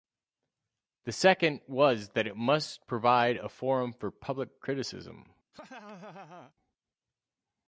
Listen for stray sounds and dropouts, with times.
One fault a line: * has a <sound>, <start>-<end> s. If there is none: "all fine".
* has a laugh, 5.5-6.5 s